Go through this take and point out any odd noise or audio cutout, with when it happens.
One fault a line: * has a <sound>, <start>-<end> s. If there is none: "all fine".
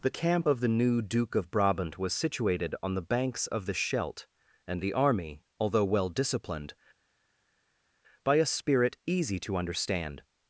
all fine